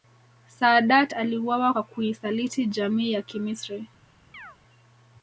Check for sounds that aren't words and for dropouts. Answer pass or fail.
fail